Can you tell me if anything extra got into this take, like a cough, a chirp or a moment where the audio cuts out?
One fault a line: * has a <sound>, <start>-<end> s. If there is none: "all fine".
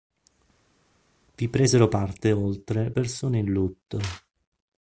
all fine